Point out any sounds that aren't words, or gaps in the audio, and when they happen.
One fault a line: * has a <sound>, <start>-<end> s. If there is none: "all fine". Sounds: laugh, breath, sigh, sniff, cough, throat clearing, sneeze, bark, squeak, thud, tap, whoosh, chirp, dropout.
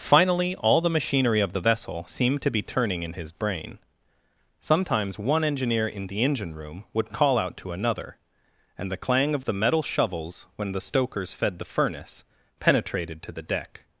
all fine